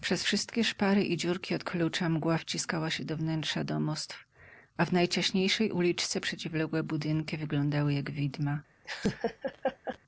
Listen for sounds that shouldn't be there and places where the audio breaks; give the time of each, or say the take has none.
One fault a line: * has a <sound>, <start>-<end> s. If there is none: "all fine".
* has a laugh, 8.8-10.0 s